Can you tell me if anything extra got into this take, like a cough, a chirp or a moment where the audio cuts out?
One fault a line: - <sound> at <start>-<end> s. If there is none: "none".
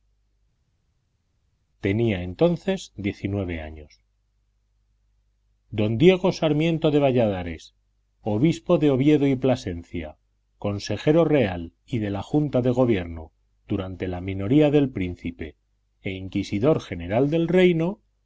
none